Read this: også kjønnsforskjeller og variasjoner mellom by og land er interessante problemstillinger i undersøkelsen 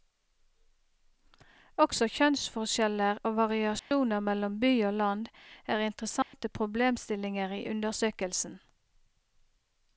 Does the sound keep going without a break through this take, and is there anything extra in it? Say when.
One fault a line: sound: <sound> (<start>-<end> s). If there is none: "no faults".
sound: dropout (3.8-3.9 s)
sound: dropout (6.2-6.3 s)